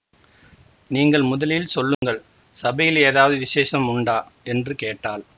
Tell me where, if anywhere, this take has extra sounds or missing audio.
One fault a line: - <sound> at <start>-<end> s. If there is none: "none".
- dropout at 1.9-2.0 s